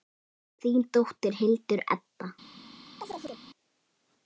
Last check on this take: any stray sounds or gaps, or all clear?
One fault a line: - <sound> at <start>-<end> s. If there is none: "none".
- chirp at 3.0-3.4 s